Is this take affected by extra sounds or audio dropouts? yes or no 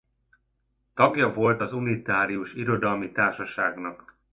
no